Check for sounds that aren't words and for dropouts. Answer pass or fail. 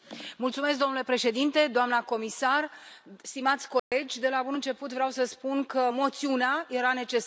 fail